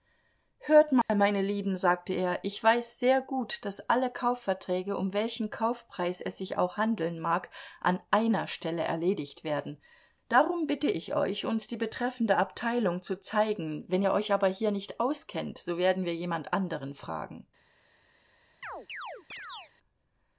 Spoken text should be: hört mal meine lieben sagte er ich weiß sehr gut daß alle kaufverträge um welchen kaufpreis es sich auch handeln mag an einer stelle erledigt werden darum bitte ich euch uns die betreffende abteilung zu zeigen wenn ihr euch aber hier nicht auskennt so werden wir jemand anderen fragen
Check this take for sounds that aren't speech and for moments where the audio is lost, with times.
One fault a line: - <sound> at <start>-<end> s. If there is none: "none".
- dropout at 1.0-1.1 s
- chirp at 18.6-19.7 s